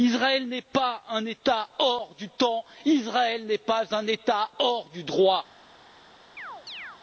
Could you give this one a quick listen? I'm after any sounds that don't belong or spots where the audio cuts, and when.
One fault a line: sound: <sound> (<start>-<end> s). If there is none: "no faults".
sound: chirp (6.4-7.0 s)